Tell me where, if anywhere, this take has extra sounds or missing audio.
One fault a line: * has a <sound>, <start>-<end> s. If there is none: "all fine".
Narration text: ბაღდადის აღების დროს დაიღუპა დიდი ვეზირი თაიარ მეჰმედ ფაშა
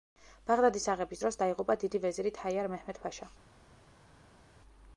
all fine